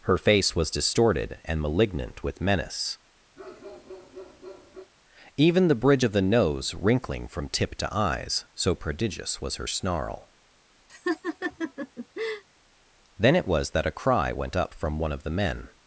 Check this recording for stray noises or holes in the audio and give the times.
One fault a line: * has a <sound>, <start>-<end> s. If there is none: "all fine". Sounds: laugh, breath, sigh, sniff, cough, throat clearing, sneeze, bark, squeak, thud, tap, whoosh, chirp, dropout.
* has a bark, 3.4-4.9 s
* has a laugh, 10.9-12.4 s